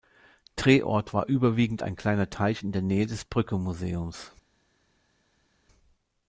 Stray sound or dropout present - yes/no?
no